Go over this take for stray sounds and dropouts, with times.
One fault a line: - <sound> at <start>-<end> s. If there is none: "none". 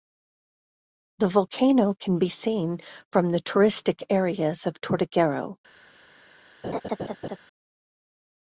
- laugh at 6.6-7.4 s